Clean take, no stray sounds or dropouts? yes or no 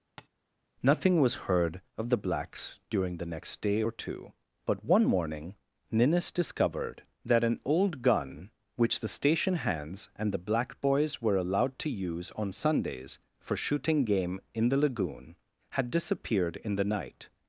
no